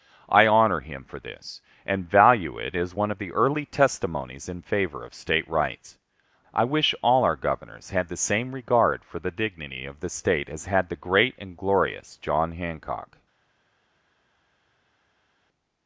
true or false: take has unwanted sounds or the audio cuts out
false